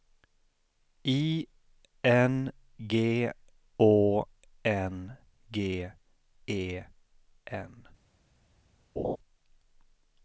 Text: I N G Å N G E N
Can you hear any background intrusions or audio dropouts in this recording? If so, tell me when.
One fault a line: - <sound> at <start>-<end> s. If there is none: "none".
- laugh at 9.0-9.2 s